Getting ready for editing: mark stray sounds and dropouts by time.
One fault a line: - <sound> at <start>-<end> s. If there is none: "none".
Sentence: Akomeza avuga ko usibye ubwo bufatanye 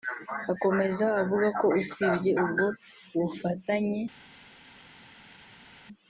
none